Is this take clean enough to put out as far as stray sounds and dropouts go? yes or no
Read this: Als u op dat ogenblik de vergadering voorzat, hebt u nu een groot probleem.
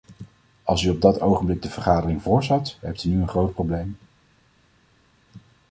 yes